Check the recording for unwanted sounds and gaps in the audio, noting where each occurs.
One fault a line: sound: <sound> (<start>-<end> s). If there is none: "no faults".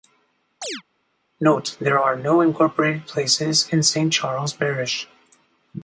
sound: chirp (0.6-0.8 s)